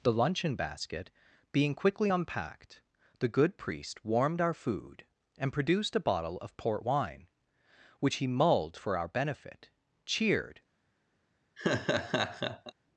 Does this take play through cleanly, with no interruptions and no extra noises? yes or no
no